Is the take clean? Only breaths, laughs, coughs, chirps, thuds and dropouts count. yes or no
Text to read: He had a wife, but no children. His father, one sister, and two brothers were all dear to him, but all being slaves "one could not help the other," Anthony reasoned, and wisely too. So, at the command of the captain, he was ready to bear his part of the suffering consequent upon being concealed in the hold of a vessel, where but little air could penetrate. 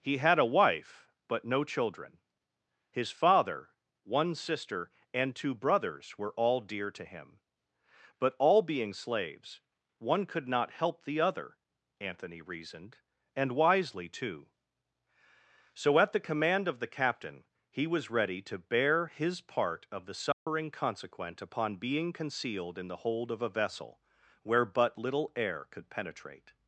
no